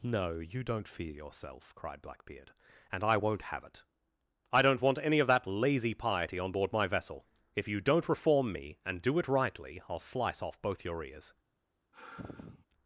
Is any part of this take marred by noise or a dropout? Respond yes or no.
yes